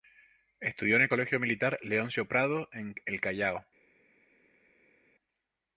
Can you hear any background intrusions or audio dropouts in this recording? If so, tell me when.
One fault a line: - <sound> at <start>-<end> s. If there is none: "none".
none